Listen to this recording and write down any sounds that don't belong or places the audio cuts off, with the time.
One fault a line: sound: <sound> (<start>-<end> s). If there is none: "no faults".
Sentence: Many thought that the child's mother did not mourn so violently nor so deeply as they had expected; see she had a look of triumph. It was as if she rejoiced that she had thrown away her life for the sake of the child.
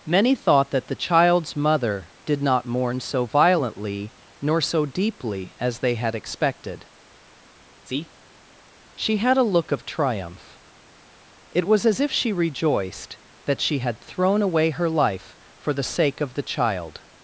no faults